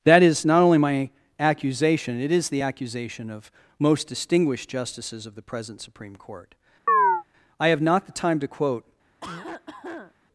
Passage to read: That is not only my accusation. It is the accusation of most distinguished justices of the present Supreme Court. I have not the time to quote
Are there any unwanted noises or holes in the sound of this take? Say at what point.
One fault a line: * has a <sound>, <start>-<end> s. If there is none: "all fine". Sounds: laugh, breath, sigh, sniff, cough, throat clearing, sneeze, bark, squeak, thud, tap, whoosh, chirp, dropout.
* has a chirp, 6.9-7.2 s
* has a cough, 9.2-10.1 s